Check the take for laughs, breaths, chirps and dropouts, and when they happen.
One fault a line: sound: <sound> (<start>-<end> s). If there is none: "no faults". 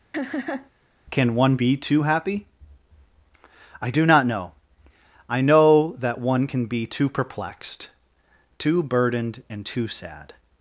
sound: laugh (0.1-0.7 s)